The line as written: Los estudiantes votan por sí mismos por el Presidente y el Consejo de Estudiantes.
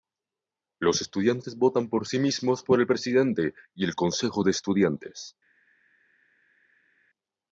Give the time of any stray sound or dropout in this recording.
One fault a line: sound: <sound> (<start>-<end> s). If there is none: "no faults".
no faults